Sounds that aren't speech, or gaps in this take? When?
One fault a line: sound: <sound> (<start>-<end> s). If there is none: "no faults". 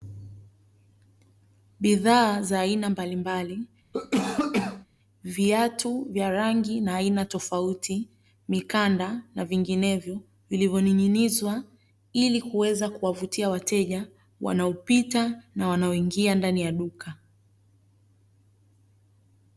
sound: cough (3.9-4.9 s)